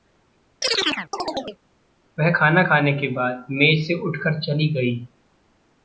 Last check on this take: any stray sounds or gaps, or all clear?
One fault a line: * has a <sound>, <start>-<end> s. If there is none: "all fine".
* has a chirp, 0.6-1.6 s